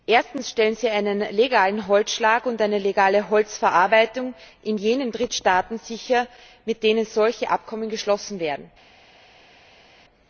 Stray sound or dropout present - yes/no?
no